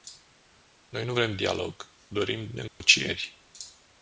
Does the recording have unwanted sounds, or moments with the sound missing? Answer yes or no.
yes